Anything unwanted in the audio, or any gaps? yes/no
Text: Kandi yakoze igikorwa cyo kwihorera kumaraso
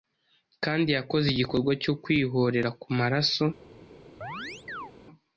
yes